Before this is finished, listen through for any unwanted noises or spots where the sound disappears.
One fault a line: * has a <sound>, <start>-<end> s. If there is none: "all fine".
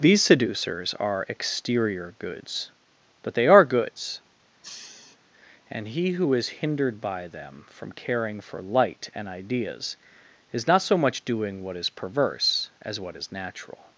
* has a sniff, 4.6-5.2 s